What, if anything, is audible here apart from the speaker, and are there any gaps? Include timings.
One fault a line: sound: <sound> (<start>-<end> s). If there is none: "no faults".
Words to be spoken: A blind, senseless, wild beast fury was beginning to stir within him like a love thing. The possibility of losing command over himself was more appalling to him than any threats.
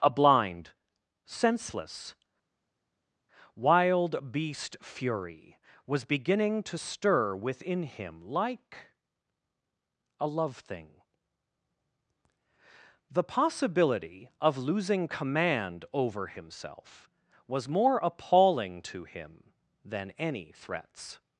no faults